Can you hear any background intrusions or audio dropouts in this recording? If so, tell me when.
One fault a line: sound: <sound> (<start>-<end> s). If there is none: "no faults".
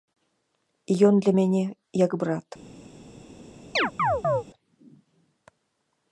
sound: chirp (3.8-4.4 s)